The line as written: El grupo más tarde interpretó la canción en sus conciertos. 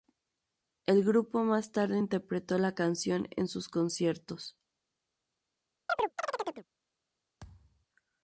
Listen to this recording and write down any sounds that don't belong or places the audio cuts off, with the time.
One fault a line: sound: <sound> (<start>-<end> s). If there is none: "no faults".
sound: chirp (5.9-6.7 s)
sound: thud (7.4-7.9 s)